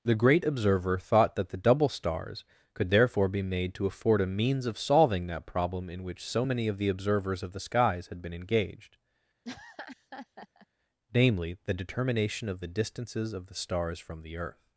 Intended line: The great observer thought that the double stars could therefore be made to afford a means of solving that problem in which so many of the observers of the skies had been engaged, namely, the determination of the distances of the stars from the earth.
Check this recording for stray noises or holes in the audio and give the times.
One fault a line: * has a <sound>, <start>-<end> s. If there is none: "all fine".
* has a laugh, 9.4-10.7 s